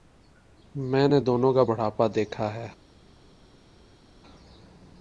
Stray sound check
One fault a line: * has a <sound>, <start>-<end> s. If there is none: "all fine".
all fine